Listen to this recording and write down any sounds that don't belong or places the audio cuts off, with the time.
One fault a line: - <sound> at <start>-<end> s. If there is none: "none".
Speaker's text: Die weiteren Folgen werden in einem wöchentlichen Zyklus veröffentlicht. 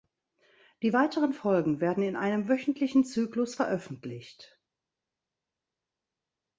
none